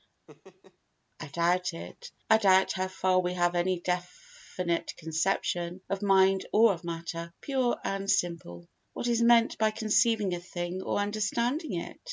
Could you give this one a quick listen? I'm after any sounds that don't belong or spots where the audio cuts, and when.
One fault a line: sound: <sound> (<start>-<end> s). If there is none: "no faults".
sound: laugh (0.3-0.8 s)